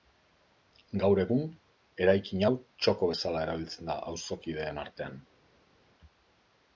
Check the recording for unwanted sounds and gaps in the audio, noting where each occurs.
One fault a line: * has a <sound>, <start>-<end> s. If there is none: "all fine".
all fine